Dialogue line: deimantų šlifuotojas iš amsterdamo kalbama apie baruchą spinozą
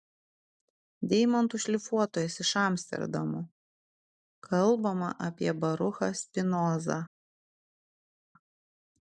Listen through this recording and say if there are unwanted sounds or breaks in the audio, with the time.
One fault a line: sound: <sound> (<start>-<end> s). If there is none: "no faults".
no faults